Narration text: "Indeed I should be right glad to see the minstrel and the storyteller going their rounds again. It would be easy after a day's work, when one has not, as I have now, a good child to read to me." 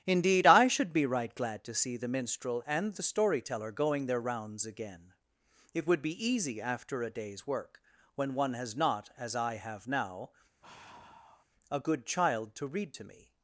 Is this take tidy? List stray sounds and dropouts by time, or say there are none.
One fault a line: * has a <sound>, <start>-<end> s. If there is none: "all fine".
* has a sigh, 10.6-11.4 s